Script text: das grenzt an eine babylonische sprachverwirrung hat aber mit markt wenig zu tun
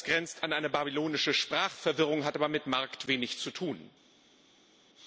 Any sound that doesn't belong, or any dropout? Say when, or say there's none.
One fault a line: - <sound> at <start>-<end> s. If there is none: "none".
none